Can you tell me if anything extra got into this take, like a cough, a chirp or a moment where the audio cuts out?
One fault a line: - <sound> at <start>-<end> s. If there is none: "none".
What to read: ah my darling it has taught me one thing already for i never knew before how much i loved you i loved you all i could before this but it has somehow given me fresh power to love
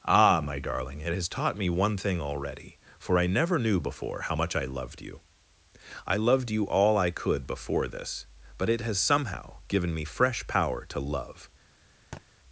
- thud at 12.1-12.3 s